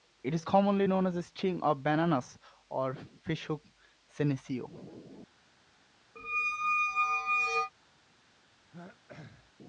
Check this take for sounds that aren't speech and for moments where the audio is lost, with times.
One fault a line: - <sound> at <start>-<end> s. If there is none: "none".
- squeak at 6.2-7.7 s
- throat clearing at 8.7-9.5 s